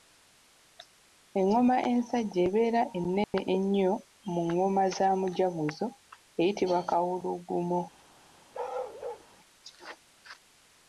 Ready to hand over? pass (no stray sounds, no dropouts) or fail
fail